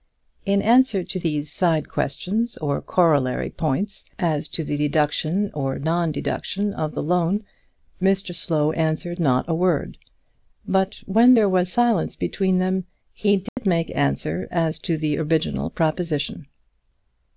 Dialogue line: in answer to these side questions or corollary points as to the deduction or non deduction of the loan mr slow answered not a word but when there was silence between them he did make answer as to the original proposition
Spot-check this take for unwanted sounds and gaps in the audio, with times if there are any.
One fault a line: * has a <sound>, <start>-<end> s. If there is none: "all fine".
* has a dropout, 13.5-13.6 s